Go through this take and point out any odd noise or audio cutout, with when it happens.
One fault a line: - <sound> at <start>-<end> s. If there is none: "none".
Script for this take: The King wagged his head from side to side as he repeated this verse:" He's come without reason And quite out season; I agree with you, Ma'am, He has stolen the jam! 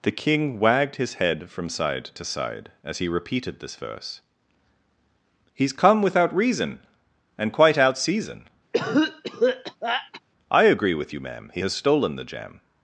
- cough at 8.7-10.2 s